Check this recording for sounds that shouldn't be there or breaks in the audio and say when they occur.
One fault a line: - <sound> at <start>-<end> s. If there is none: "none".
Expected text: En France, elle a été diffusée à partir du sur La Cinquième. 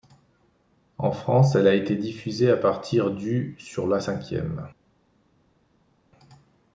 none